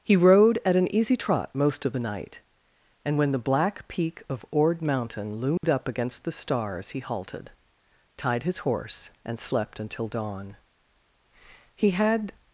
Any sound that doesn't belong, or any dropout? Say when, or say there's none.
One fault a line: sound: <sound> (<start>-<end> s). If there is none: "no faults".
sound: dropout (5.6-5.6 s)